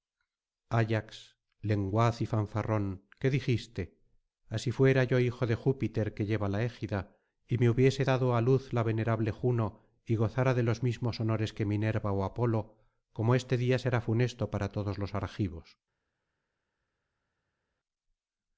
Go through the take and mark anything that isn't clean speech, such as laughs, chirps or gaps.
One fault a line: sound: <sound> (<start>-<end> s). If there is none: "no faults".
no faults